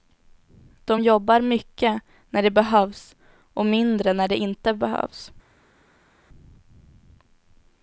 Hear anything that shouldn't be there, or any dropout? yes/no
no